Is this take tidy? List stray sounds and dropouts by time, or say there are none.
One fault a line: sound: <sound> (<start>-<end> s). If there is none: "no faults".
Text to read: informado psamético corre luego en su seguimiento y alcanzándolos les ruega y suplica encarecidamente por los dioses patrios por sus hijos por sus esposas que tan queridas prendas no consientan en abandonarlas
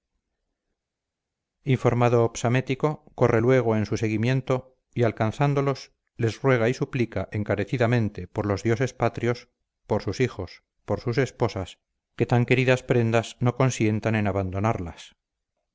no faults